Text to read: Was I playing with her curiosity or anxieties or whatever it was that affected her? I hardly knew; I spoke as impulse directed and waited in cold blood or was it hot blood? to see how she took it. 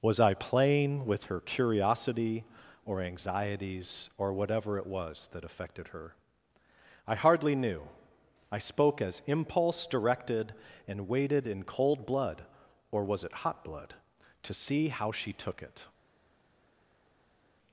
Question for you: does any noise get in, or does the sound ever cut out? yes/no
no